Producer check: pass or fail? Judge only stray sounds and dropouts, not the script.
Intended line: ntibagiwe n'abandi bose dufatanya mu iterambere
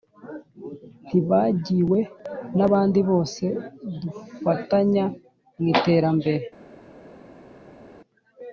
pass